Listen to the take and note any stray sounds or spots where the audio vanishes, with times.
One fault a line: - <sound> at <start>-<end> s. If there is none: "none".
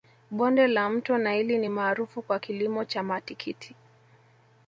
none